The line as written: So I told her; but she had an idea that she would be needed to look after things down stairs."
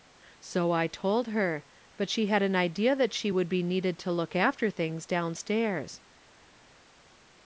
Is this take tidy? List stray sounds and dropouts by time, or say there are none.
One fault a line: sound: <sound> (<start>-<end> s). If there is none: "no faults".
no faults